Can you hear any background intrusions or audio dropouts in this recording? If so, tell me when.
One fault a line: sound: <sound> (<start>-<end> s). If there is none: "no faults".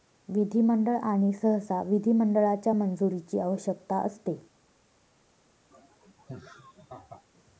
sound: laugh (5.7-7.2 s)